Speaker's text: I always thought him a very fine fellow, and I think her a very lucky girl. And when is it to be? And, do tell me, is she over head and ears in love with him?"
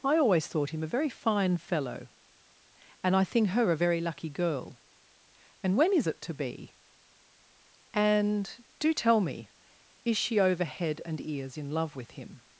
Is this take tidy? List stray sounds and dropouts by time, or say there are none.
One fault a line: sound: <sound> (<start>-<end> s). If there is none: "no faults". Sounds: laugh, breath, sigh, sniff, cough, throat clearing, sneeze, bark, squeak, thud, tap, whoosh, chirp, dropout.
no faults